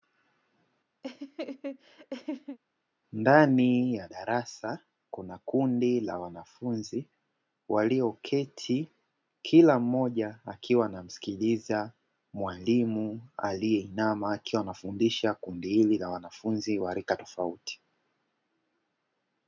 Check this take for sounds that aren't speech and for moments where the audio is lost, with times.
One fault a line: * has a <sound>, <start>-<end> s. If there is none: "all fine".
* has a laugh, 1.0-2.6 s